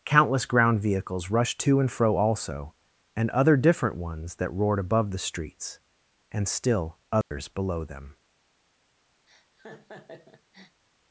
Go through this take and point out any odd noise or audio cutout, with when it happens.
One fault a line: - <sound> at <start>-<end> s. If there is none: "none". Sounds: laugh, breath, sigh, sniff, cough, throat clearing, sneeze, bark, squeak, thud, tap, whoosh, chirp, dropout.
- dropout at 7.2-7.3 s
- laugh at 9.3-10.8 s